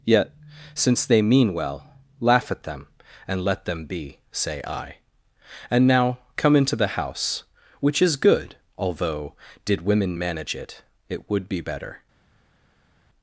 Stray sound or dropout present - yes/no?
no